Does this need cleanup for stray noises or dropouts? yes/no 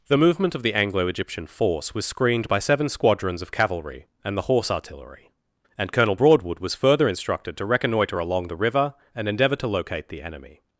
no